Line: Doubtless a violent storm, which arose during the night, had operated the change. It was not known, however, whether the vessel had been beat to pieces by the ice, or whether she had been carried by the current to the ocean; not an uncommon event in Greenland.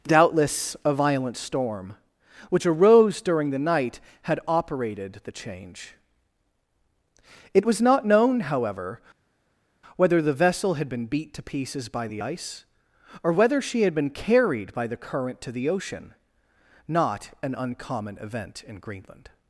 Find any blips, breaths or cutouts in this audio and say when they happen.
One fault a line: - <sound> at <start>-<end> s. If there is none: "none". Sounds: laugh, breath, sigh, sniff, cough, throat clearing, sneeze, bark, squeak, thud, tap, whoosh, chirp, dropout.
none